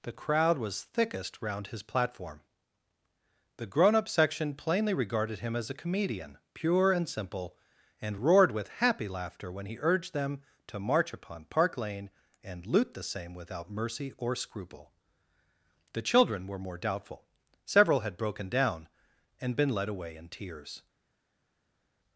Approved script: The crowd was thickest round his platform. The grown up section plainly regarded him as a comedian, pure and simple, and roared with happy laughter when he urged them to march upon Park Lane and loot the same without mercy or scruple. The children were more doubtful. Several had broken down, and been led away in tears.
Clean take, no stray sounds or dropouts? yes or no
yes